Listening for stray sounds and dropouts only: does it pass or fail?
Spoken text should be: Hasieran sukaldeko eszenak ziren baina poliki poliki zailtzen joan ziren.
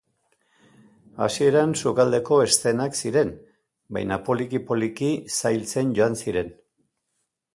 pass